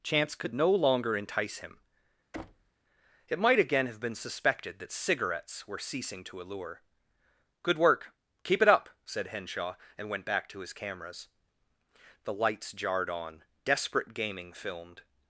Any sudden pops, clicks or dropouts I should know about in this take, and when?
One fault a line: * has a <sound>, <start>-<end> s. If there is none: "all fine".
* has a thud, 2.3-2.7 s